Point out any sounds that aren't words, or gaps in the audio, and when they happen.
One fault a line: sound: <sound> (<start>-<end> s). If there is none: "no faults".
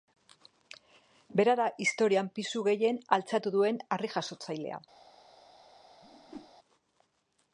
sound: whoosh (6.0-6.5 s)